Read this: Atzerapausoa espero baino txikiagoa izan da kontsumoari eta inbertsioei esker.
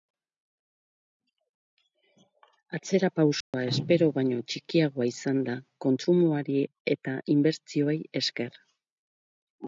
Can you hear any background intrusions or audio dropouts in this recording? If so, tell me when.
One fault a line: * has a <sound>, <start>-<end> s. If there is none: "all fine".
* has a dropout, 3.4-3.5 s